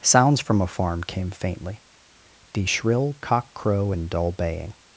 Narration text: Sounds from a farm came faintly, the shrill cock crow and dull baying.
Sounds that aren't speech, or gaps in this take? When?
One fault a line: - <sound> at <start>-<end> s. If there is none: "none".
none